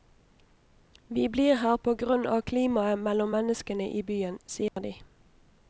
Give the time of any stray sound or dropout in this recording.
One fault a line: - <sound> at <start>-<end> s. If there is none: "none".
- dropout at 4.7-4.8 s